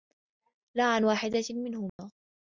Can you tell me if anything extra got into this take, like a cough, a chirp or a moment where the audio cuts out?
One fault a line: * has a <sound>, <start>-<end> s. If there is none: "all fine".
* has a dropout, 1.9-2.0 s